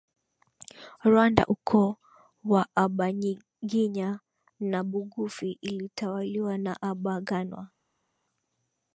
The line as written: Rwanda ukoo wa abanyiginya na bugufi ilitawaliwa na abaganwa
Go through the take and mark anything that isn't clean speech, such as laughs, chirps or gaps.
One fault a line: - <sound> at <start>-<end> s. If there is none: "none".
none